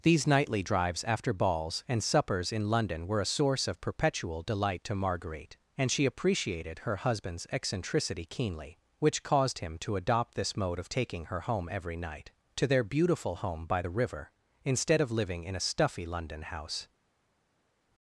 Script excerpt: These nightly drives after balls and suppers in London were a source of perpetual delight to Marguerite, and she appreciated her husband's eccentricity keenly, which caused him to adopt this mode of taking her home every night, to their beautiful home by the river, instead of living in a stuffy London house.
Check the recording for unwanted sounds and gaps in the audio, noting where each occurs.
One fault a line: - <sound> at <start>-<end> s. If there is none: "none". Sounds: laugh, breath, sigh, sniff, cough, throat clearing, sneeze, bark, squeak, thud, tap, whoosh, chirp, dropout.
none